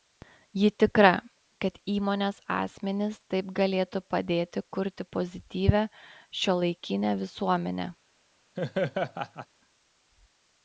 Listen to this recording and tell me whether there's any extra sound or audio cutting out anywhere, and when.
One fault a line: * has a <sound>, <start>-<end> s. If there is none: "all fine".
* has a laugh, 8.6-9.5 s